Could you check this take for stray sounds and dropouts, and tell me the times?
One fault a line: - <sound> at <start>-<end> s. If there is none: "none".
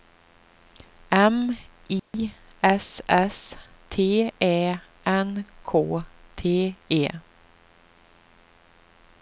- dropout at 2.0-2.1 s